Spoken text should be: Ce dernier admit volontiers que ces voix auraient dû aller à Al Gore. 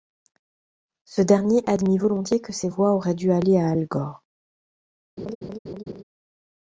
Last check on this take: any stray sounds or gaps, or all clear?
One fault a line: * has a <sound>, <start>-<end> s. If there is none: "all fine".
* has a laugh, 5.2-6.0 s